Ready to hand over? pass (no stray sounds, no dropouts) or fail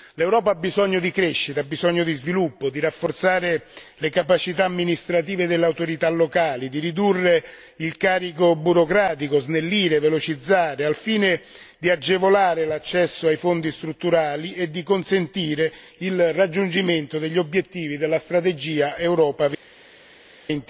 pass